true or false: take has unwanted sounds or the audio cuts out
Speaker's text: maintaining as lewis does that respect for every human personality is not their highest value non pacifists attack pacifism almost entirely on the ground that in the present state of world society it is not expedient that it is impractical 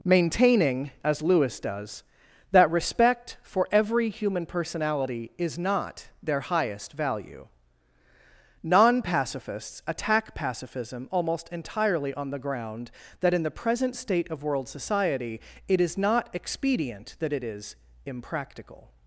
false